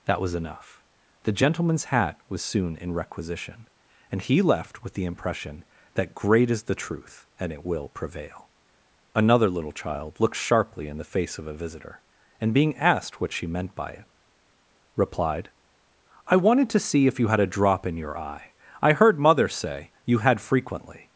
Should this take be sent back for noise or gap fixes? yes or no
no